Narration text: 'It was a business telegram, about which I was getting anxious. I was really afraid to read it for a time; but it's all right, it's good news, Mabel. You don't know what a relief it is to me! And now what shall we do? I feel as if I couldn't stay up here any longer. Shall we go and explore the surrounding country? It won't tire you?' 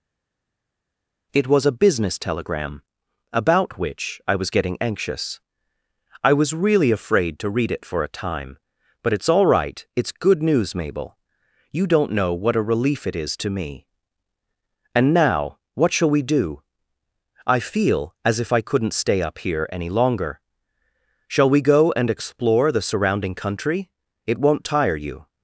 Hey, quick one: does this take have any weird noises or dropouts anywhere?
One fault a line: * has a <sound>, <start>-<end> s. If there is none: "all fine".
all fine